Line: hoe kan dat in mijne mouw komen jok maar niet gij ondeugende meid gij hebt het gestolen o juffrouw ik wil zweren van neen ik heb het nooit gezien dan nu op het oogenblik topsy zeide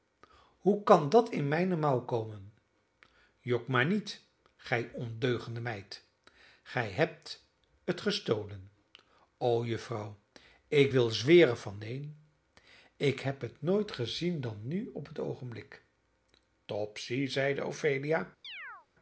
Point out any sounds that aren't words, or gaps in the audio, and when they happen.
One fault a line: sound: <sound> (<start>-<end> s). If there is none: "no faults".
sound: chirp (18.4-18.9 s)